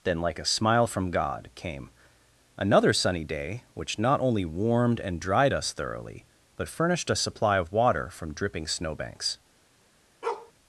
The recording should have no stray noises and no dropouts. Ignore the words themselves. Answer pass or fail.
fail